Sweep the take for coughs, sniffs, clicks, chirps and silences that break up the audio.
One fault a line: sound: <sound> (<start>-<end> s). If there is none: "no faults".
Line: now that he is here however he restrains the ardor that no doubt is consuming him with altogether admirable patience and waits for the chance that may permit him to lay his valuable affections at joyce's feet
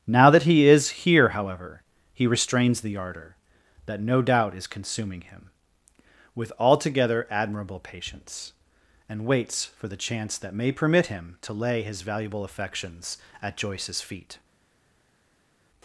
no faults